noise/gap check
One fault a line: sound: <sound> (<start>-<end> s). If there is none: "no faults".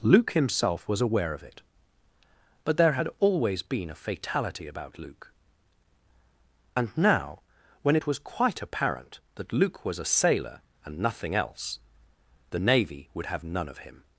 no faults